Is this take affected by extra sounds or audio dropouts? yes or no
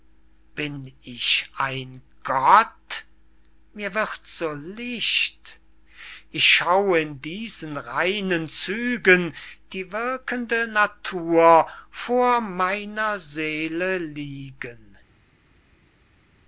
no